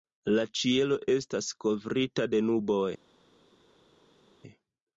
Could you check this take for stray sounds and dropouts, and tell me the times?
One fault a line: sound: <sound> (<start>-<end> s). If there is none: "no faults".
no faults